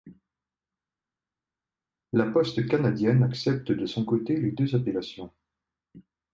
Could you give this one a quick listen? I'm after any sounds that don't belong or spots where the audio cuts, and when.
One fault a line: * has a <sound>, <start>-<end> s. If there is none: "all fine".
all fine